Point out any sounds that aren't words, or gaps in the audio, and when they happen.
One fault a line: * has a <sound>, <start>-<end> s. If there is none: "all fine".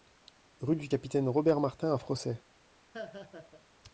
* has a laugh, 2.9-3.7 s